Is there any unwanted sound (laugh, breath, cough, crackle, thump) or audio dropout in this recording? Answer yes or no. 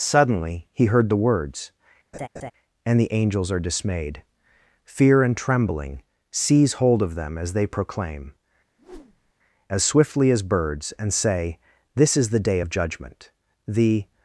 yes